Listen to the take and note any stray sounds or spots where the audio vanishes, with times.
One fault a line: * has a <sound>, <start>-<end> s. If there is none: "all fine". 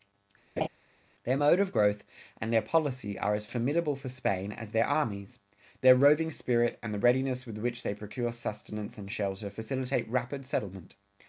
* has a laugh, 0.6-0.7 s